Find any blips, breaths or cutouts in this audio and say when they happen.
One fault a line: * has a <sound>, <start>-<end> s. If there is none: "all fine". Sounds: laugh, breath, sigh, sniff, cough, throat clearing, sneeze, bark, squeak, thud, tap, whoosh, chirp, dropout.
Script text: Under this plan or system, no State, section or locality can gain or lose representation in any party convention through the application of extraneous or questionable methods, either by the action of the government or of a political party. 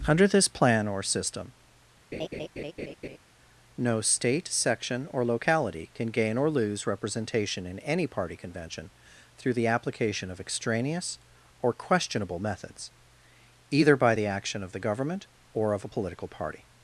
* has a laugh, 2.1-3.2 s